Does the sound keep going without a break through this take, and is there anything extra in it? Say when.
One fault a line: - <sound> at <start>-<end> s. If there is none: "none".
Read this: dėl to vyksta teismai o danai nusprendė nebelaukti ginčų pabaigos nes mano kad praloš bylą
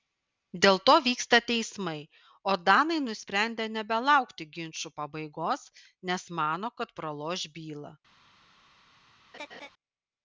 - laugh at 9.3-9.7 s